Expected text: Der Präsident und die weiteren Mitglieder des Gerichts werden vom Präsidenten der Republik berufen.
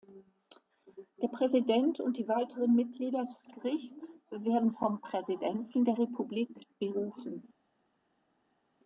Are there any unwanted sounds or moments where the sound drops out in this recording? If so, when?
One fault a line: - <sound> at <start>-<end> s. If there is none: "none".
none